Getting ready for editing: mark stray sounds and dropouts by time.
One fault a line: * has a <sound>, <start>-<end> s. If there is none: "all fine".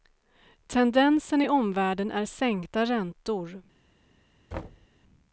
* has a thud, 4.5-4.9 s